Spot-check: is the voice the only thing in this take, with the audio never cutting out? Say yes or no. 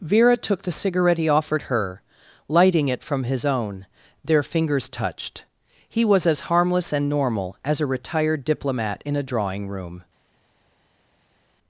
yes